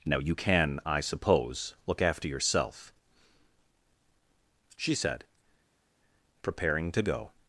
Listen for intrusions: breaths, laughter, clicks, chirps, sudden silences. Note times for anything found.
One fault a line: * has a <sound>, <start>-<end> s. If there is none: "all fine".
all fine